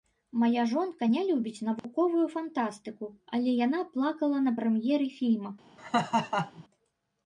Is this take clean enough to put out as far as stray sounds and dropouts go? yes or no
no